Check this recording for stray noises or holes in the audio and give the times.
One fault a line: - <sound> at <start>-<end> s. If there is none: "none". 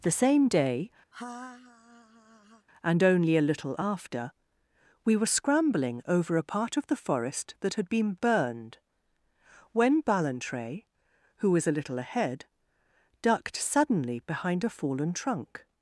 - laugh at 1.1-2.7 s